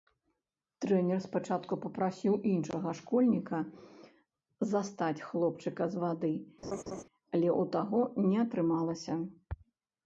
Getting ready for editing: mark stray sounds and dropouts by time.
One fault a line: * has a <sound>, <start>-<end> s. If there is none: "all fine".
* has a laugh, 6.6-7.0 s